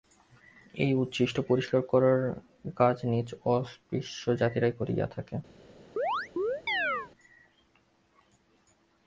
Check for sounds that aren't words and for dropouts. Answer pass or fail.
fail